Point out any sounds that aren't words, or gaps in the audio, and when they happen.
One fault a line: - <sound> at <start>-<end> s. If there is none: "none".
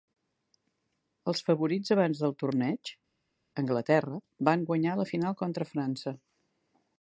none